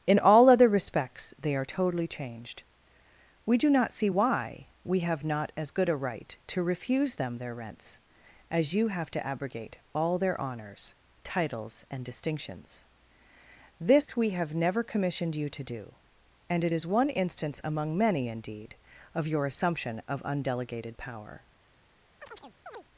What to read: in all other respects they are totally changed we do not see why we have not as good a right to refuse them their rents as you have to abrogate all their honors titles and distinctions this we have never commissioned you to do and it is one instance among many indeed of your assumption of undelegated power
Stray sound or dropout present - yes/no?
yes